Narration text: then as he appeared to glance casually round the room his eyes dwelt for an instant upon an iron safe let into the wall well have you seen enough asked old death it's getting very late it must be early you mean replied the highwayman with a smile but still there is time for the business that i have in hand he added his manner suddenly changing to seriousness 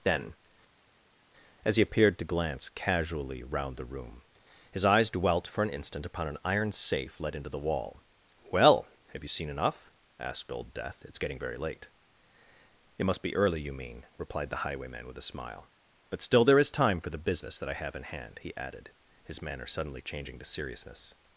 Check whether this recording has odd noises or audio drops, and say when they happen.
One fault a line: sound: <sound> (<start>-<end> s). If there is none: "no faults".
no faults